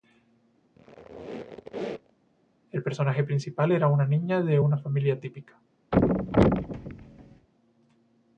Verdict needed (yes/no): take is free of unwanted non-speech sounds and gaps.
no